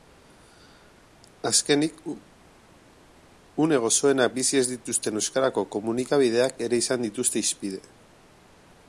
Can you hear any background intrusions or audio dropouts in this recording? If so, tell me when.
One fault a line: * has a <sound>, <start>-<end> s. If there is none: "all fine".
all fine